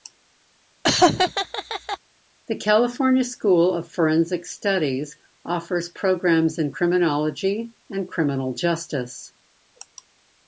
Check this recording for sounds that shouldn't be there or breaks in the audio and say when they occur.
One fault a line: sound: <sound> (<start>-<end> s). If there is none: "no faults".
sound: laugh (0.8-2.0 s)